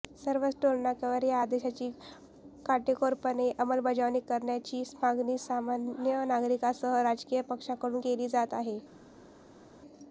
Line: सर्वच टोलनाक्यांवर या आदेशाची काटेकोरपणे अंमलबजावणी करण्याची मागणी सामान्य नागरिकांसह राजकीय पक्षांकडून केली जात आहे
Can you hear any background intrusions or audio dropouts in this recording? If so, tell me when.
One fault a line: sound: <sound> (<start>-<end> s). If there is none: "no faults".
no faults